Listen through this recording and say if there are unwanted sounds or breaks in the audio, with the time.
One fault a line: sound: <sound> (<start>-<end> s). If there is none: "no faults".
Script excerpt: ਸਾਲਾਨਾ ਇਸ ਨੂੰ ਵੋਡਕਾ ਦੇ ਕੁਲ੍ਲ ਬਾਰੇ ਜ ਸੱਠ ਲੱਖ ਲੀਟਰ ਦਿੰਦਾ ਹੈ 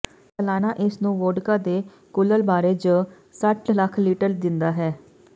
no faults